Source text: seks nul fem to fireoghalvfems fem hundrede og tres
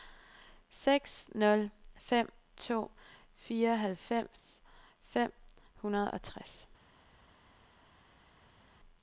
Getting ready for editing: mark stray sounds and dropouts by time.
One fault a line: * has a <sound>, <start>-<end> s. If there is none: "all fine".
all fine